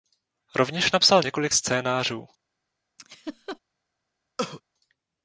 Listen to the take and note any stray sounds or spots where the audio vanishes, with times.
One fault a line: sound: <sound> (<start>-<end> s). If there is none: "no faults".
sound: laugh (3.0-3.6 s)
sound: cough (4.4-4.6 s)